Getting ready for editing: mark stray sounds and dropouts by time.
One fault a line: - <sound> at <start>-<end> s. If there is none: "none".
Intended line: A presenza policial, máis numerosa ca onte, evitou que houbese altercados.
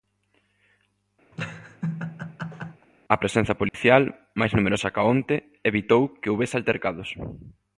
- laugh at 1.3-2.9 s
- dropout at 3.7-3.7 s